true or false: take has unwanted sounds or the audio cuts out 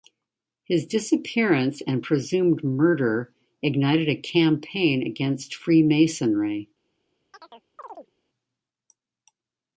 true